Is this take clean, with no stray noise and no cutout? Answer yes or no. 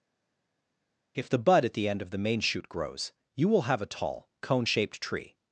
yes